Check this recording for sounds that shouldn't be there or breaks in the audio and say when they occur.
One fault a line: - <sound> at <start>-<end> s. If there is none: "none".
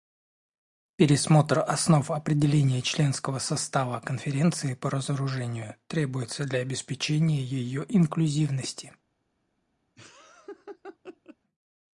- laugh at 10.0-11.4 s